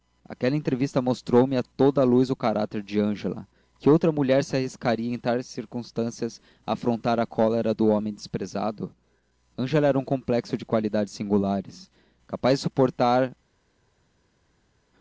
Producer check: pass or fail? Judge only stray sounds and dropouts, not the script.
pass